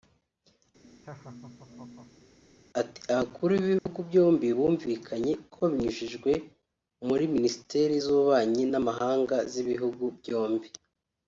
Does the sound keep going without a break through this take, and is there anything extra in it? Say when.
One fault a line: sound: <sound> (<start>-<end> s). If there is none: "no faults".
sound: laugh (0.8-2.4 s)
sound: dropout (3.8-3.9 s)